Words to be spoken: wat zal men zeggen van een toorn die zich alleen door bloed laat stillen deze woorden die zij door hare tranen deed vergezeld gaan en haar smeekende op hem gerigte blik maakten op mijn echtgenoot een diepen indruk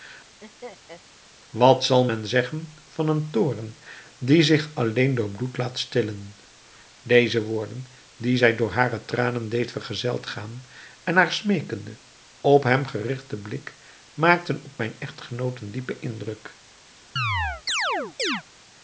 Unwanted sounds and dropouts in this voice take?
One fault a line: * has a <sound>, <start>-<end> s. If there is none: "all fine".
* has a laugh, 0.4-1.0 s
* has a chirp, 17.2-18.4 s